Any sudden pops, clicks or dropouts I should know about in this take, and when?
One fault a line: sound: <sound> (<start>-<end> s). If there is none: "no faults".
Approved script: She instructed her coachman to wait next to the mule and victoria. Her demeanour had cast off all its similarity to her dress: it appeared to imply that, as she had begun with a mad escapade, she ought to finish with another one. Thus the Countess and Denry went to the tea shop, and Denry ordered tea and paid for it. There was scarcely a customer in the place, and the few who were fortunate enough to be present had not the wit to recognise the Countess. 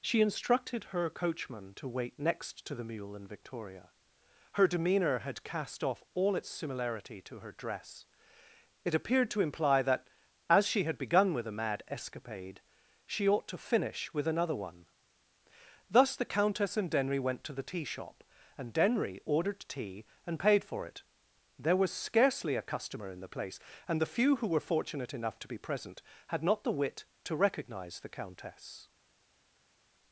no faults